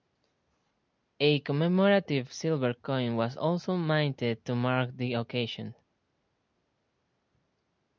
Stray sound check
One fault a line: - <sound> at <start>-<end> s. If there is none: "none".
none